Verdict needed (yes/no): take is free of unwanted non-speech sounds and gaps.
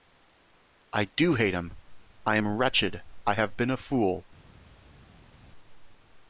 yes